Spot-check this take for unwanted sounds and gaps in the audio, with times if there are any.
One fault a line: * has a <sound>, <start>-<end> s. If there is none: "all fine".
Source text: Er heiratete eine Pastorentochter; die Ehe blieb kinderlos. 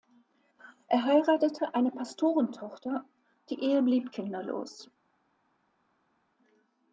all fine